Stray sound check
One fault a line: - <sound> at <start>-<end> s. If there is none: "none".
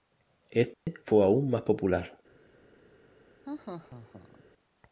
- dropout at 0.7-0.9 s
- laugh at 3.4-4.4 s